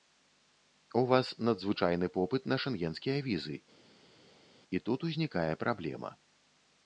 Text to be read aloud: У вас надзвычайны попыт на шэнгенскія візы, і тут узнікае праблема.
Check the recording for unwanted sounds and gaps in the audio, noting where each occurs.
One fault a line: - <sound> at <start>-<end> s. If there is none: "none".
none